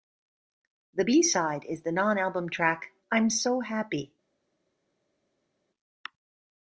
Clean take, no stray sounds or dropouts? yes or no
yes